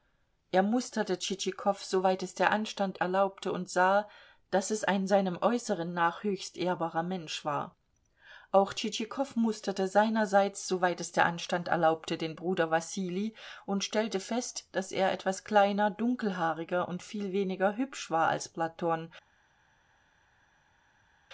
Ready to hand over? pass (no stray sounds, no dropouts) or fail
pass